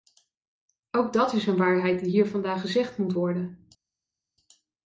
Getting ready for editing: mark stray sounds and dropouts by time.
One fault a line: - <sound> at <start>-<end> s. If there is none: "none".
none